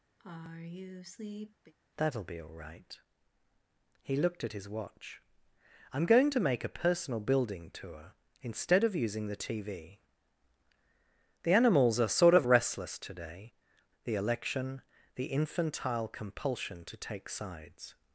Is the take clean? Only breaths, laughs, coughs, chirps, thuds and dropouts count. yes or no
no